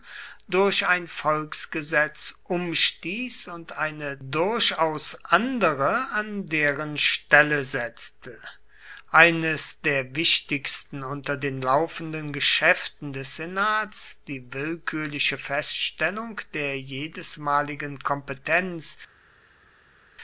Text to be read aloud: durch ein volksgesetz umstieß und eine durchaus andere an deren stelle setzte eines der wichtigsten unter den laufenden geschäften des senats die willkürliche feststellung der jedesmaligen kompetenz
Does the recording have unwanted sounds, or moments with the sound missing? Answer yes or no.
no